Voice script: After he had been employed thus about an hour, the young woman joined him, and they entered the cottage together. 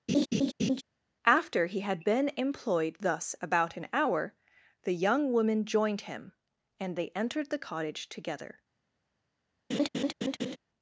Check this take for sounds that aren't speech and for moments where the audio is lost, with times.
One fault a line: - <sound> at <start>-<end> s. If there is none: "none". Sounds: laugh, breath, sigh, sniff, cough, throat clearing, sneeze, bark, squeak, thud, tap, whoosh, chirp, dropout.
- laugh at 0.1-0.8 s
- laugh at 9.7-10.6 s